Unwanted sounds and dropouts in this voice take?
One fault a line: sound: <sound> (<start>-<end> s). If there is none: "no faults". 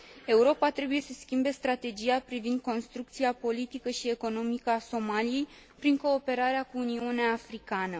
no faults